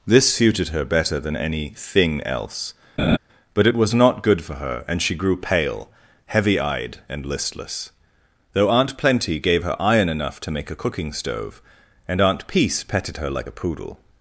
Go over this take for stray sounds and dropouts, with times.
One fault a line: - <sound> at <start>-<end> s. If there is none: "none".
- laugh at 3.0-3.2 s